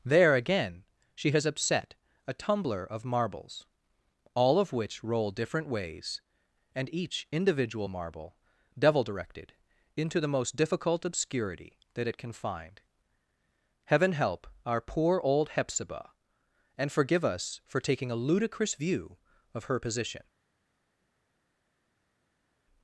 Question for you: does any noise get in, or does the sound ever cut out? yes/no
no